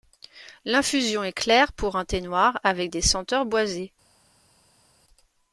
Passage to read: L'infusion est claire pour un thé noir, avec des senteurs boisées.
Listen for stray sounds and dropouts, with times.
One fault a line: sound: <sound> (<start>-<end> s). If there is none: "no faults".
no faults